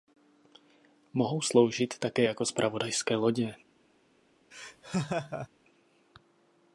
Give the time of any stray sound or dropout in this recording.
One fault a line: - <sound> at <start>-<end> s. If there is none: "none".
- laugh at 4.5-5.5 s